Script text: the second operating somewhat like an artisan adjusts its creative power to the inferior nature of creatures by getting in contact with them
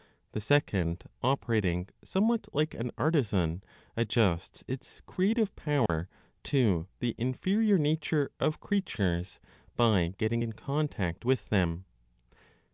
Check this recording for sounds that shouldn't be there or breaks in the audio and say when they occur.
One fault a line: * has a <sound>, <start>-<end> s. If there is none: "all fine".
* has a dropout, 5.9-5.9 s